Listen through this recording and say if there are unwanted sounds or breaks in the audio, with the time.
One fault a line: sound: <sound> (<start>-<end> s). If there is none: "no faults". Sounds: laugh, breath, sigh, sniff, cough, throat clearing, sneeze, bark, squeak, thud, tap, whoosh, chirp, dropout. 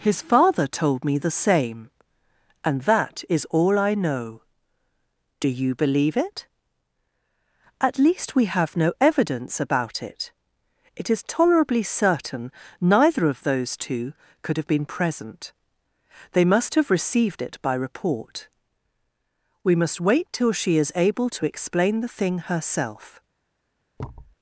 sound: thud (24.0-24.4 s)